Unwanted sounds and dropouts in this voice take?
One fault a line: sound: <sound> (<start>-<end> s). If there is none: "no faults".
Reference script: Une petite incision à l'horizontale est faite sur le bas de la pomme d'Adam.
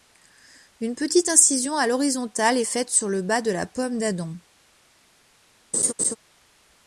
sound: laugh (5.7-6.2 s)